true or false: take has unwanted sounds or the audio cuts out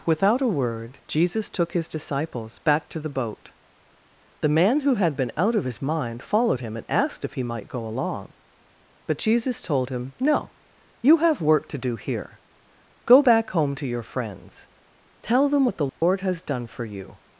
true